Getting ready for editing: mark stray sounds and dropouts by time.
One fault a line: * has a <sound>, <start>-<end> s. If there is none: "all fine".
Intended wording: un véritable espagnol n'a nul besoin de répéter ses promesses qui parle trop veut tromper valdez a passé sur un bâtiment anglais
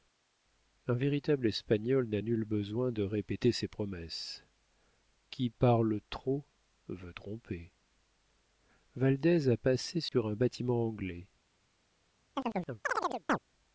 * has a dropout, 10.1-10.1 s
* has a chirp, 12.3-13.4 s